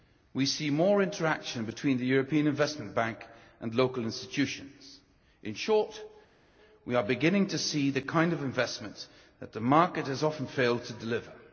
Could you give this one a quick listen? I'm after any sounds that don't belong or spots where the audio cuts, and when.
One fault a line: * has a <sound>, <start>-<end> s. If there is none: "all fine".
all fine